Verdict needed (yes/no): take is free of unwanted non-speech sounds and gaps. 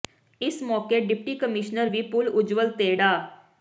yes